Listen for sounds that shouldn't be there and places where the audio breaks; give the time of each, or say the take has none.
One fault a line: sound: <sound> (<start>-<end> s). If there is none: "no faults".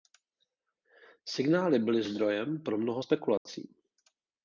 sound: dropout (3.4-3.5 s)